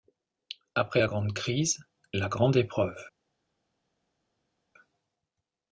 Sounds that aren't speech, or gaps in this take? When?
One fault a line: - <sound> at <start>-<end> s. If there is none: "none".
none